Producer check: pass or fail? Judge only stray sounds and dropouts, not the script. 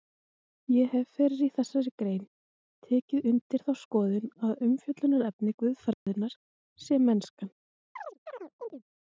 fail